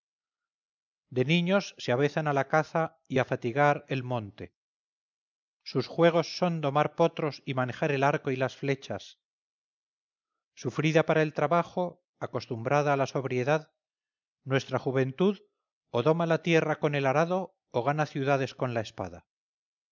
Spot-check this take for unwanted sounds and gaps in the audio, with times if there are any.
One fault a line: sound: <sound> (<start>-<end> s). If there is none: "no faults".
no faults